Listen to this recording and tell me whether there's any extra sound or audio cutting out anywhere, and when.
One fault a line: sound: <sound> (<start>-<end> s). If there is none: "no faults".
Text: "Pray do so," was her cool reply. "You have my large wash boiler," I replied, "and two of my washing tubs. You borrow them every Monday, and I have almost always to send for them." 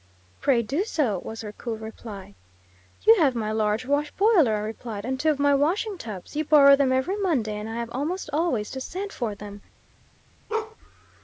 sound: bark (10.5-10.8 s)